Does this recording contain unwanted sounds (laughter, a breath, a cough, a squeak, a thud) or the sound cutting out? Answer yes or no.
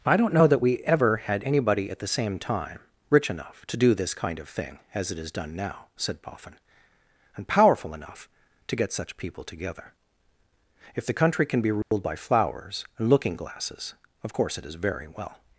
yes